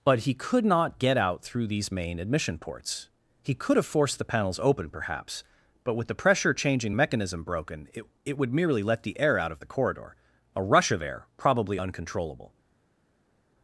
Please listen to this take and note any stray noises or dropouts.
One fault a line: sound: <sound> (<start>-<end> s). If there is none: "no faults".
no faults